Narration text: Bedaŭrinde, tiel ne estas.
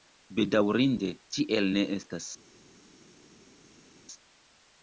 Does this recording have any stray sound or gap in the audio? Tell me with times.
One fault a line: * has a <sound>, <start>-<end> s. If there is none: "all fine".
all fine